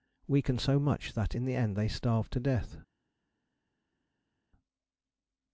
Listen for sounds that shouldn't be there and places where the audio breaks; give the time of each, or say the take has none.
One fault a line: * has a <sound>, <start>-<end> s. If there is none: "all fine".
all fine